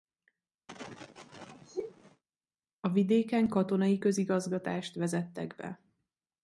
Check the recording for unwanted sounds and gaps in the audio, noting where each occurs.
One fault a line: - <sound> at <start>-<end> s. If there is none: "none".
- sneeze at 0.7-2.2 s